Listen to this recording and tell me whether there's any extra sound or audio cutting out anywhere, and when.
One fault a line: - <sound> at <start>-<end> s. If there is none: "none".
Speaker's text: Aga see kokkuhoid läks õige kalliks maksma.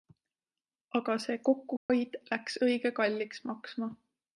- dropout at 1.8-1.9 s